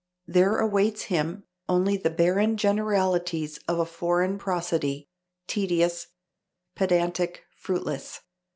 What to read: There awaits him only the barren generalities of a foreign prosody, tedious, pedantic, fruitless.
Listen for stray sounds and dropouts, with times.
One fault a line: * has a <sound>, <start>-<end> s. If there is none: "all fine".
all fine